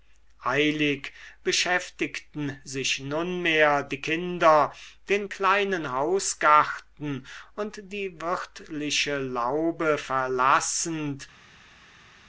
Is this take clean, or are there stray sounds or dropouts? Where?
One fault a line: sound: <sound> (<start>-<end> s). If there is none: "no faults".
no faults